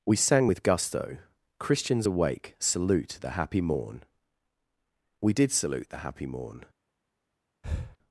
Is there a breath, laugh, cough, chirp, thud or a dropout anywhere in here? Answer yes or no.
yes